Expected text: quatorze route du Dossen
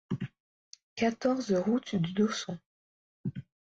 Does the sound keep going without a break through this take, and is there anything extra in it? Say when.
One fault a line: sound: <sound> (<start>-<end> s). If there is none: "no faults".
no faults